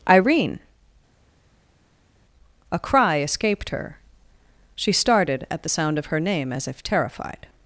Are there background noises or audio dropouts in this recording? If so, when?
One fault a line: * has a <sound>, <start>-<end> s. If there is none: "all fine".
all fine